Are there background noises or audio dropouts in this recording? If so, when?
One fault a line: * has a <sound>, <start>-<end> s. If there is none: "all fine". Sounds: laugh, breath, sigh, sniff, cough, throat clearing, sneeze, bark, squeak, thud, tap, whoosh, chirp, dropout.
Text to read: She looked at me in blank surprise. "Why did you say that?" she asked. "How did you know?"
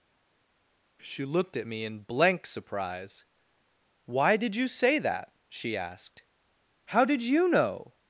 all fine